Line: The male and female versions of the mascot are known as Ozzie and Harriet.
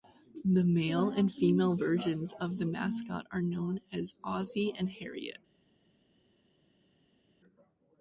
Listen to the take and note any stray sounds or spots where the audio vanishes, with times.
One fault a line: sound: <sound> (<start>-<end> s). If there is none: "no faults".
no faults